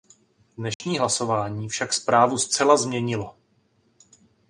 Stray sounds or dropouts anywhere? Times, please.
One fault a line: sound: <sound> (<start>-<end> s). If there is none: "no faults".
sound: dropout (0.7-0.8 s)